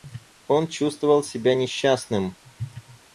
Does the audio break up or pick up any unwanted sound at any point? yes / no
no